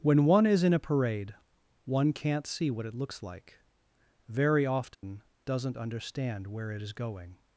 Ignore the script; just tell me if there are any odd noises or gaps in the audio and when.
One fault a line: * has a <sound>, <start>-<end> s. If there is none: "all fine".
* has a dropout, 4.9-5.0 s